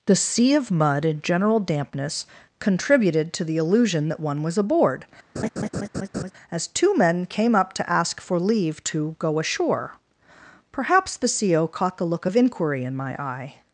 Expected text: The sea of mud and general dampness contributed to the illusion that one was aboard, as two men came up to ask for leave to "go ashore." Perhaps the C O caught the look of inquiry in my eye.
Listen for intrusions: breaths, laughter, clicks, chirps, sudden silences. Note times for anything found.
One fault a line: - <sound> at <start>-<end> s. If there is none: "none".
- laugh at 5.4-6.3 s